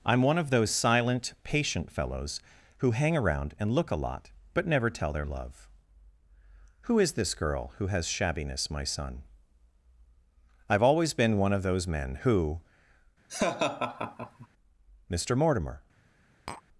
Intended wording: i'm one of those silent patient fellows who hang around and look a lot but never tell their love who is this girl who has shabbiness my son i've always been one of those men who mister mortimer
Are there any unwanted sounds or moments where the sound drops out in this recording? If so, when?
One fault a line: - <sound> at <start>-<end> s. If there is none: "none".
- laugh at 13.3-14.5 s
- tap at 16.5-16.6 s